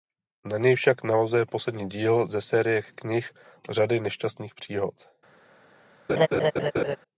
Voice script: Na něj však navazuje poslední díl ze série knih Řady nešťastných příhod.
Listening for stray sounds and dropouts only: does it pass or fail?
fail